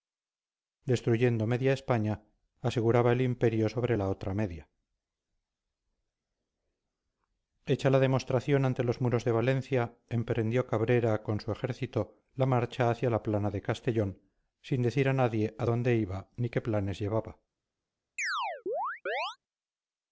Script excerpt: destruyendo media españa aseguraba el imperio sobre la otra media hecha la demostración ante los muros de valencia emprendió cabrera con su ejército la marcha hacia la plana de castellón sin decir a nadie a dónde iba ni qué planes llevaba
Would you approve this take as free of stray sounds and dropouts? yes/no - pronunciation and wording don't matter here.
no